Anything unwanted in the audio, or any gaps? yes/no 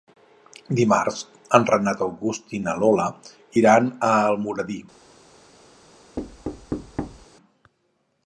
yes